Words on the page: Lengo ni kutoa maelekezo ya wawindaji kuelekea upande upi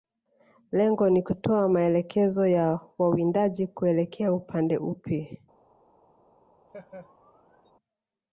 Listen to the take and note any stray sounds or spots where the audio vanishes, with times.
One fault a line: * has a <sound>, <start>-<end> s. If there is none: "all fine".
* has a laugh, 6.7-7.7 s